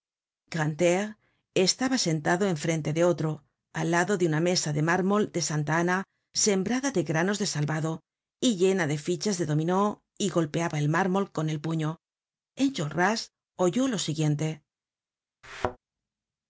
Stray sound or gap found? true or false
true